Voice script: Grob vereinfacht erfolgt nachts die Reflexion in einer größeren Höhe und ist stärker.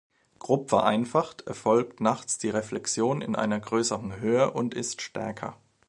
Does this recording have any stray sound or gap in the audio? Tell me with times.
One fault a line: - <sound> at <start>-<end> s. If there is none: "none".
none